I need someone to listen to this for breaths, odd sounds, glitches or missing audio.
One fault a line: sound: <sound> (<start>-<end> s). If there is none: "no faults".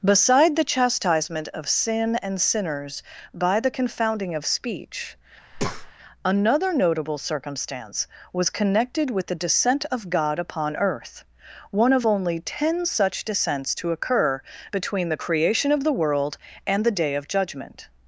sound: breath (5.5-5.9 s)